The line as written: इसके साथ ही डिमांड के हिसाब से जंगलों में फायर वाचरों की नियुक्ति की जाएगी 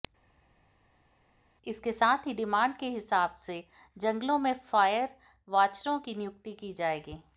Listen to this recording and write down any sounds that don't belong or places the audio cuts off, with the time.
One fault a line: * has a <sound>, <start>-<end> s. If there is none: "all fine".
all fine